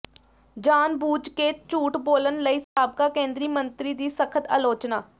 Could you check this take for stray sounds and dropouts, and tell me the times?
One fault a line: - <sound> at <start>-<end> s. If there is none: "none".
- dropout at 2.6-2.8 s